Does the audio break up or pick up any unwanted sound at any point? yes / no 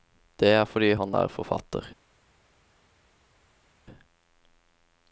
no